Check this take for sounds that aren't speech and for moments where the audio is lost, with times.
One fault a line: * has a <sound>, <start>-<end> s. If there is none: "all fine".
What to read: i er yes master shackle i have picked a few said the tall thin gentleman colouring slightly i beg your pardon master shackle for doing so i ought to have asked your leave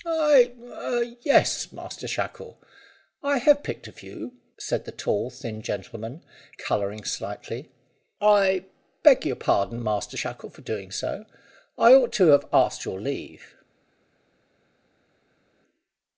all fine